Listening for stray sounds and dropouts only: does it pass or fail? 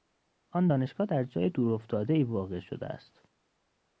pass